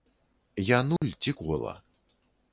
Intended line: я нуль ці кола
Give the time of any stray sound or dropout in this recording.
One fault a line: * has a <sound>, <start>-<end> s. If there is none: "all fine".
* has a dropout, 1.0-1.0 s